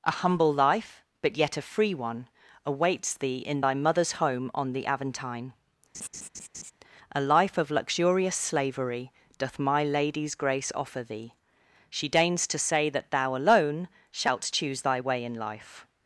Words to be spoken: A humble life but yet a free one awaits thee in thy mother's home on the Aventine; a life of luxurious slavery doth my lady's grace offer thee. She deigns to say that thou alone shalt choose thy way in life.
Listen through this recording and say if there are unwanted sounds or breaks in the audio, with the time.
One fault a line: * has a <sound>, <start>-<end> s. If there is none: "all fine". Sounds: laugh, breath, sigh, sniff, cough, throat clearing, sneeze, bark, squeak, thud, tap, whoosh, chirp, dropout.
* has a laugh, 5.9-6.7 s